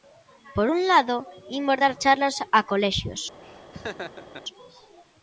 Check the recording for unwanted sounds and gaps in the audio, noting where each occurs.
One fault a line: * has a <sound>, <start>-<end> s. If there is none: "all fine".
* has a laugh, 3.4-4.4 s